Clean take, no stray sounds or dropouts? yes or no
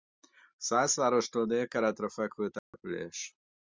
no